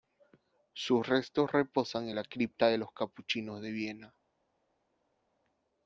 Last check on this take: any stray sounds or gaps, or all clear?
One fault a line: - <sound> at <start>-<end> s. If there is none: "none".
none